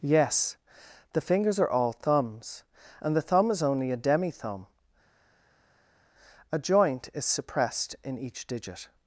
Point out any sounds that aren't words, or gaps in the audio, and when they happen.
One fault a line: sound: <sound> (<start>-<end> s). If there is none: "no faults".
no faults